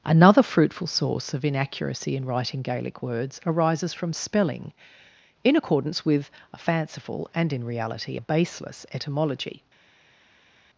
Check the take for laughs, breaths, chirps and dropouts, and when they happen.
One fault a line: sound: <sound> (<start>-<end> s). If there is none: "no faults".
no faults